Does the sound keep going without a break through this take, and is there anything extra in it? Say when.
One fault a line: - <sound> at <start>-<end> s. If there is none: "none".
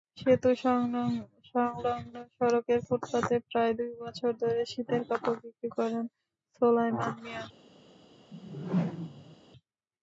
- whoosh at 8.3-9.4 s